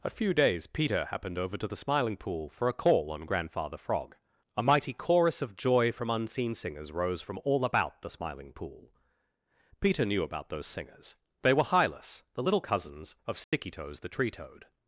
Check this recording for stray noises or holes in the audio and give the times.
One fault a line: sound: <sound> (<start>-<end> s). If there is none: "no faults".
sound: dropout (13.4-13.5 s)